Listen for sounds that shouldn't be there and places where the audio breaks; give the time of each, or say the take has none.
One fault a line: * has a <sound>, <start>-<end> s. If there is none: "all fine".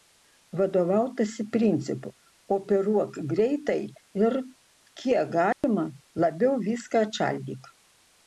* has a dropout, 5.5-5.6 s